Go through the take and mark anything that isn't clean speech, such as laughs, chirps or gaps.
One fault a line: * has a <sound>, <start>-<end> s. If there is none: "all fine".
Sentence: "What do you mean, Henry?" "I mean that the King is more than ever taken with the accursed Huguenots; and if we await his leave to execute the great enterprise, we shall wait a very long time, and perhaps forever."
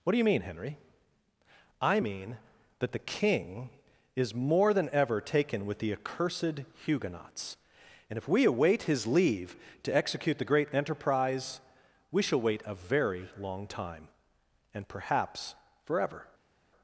all fine